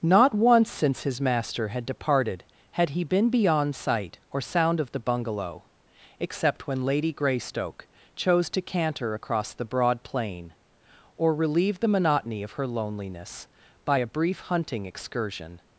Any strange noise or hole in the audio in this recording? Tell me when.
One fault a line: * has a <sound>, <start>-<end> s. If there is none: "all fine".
all fine